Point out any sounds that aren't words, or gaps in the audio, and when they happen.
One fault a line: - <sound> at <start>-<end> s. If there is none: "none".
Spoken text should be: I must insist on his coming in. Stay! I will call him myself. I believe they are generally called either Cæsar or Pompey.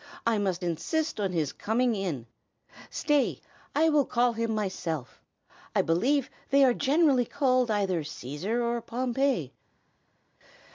none